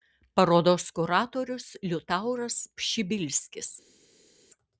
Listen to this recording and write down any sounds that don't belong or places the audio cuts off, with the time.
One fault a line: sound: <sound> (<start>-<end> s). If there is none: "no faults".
no faults